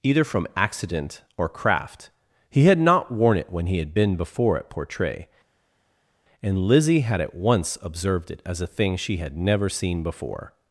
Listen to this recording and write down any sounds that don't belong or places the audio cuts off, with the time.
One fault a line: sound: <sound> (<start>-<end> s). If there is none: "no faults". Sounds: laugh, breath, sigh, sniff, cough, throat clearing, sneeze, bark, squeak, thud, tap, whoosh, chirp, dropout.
no faults